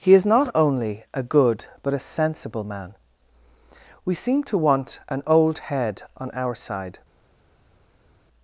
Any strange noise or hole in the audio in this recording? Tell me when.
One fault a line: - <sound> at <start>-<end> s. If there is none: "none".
none